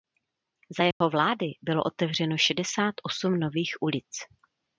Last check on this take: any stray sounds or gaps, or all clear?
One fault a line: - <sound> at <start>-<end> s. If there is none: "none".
- dropout at 0.9-1.0 s